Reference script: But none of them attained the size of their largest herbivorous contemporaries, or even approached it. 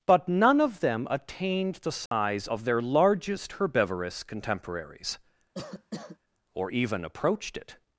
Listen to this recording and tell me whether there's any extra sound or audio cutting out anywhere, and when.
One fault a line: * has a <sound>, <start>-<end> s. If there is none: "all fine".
* has a dropout, 2.1-2.1 s
* has a cough, 5.5-6.2 s